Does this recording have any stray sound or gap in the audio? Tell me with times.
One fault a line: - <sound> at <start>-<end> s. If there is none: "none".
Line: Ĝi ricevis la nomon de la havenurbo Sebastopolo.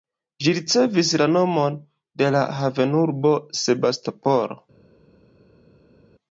none